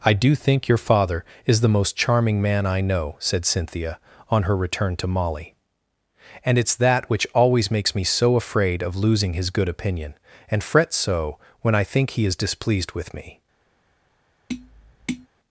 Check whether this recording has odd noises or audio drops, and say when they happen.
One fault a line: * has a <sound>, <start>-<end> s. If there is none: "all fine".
* has a tap, 14.5-15.3 s